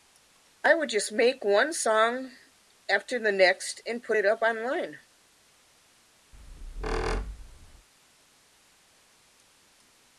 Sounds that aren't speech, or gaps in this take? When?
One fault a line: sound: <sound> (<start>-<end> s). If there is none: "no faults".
sound: squeak (6.3-7.9 s)